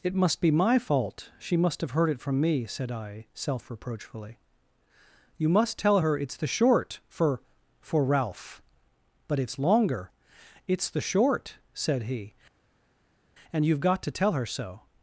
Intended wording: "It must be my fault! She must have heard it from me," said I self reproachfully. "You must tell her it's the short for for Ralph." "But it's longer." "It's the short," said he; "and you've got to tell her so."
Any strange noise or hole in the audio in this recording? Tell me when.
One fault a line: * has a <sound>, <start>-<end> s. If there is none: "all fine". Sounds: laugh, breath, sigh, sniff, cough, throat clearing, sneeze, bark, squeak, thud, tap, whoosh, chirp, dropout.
all fine